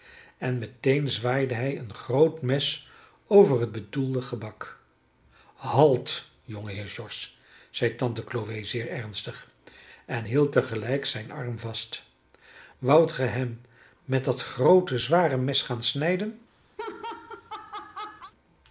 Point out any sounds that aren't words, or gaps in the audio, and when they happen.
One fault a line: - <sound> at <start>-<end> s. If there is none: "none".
- laugh at 16.8-18.3 s